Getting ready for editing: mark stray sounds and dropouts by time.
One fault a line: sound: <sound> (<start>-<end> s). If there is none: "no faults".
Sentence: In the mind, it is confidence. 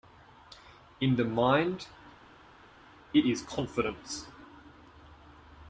no faults